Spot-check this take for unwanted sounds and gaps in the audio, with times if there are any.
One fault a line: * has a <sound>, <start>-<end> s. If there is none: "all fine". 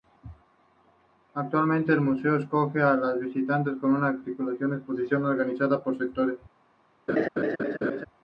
* has a laugh, 7.1-8.0 s